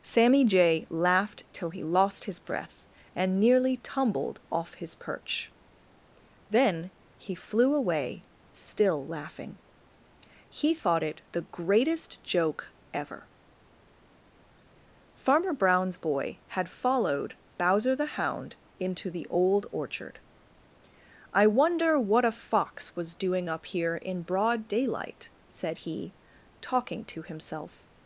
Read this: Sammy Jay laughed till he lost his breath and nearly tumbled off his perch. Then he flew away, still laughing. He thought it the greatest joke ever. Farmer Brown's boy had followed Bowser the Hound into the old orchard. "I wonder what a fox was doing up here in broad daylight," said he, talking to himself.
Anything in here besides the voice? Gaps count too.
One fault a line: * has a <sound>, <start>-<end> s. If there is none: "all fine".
all fine